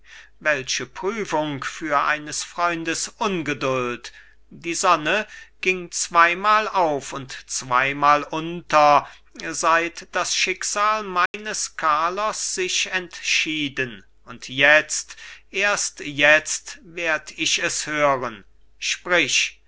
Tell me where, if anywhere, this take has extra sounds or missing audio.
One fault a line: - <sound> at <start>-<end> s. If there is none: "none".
- dropout at 11.3-11.3 s